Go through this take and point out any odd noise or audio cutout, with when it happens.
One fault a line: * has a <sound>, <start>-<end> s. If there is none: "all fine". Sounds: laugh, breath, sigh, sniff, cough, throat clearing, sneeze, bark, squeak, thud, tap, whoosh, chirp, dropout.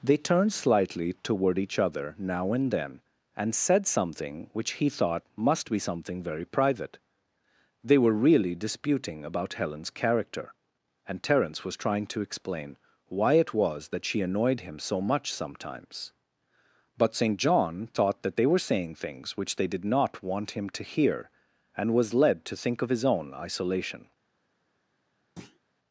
* has a thud, 25.4-25.6 s